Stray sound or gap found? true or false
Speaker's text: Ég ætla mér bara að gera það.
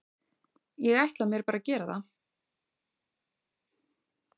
false